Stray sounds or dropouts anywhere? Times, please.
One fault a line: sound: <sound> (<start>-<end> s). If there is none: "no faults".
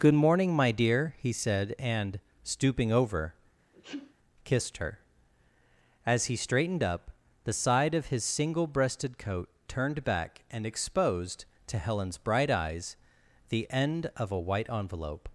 sound: sneeze (3.7-4.1 s)